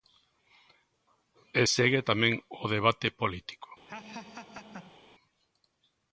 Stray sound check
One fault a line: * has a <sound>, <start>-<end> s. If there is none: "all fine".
* has a laugh, 3.9-5.0 s